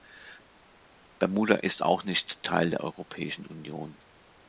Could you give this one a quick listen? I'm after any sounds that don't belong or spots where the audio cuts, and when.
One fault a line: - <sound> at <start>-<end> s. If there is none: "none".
none